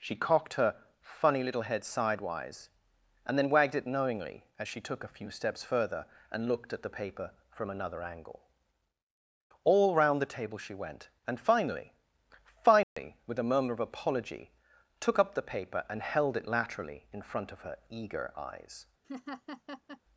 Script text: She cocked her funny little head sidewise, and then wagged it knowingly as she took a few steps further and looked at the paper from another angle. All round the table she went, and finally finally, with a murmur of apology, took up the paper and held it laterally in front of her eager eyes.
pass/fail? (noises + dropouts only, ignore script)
fail